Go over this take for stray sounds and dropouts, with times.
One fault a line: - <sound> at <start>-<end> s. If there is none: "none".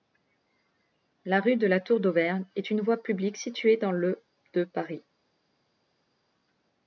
none